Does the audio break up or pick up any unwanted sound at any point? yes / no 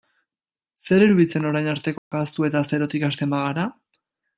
yes